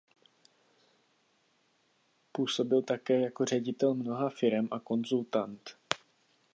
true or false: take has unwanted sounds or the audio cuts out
false